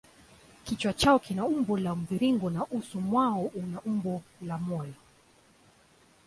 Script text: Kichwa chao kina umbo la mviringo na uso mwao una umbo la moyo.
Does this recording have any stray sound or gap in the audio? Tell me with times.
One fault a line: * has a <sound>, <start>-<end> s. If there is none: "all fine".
all fine